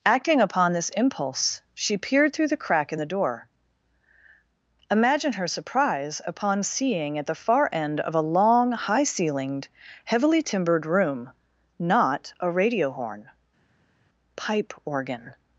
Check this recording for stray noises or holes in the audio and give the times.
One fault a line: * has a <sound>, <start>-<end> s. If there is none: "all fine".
all fine